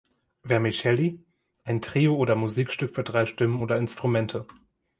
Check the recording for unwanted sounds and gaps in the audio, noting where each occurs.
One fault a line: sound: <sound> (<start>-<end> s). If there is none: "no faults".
no faults